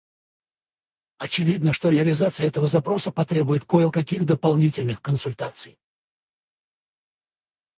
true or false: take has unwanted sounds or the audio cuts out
false